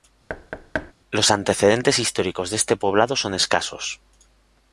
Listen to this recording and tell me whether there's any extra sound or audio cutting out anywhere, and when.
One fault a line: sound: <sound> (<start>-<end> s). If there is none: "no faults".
sound: thud (0.3-0.9 s)